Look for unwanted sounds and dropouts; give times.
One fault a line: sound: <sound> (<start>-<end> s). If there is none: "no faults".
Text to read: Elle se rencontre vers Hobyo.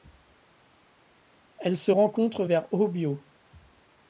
no faults